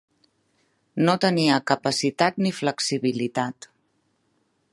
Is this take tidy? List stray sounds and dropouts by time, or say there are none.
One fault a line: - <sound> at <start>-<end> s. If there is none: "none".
none